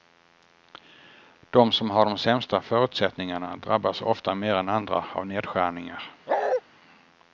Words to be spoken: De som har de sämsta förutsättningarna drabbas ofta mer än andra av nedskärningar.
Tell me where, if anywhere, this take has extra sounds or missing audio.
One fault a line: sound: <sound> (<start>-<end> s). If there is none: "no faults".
sound: bark (6.3-6.6 s)